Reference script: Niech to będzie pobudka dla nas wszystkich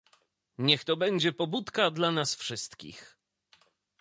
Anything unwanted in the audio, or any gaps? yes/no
no